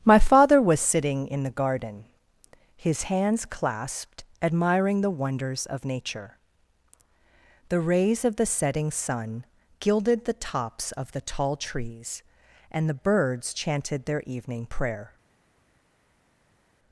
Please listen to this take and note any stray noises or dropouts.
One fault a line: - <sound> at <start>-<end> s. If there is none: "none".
none